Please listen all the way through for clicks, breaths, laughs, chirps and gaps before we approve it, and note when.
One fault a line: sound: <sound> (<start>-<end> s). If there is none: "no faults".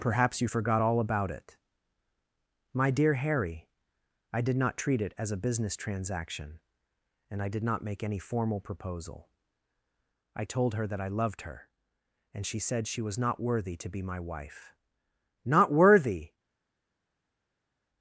no faults